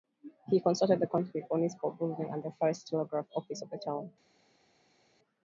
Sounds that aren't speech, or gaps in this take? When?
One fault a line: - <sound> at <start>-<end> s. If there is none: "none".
none